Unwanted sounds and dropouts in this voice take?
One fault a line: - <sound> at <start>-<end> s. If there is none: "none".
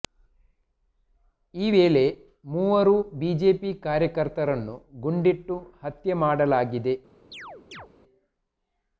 - chirp at 7.3-7.9 s